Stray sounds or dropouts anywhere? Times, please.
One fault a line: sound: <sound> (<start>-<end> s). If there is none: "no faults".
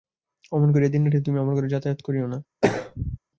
sound: throat clearing (2.6-3.2 s)